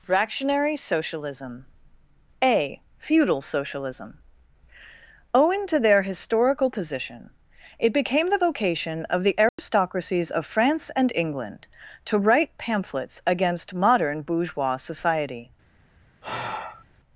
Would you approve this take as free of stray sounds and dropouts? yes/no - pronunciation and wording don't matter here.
no